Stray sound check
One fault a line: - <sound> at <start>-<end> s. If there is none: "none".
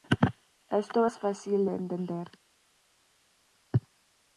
none